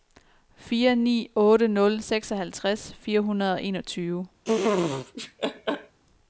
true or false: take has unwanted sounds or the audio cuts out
true